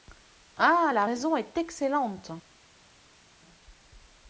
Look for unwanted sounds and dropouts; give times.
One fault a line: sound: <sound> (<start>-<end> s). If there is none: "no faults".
no faults